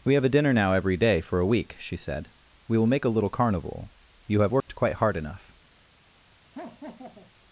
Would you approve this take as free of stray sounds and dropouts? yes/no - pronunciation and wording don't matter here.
no